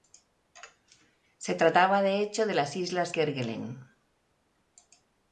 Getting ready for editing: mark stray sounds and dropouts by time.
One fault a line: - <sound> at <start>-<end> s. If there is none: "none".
none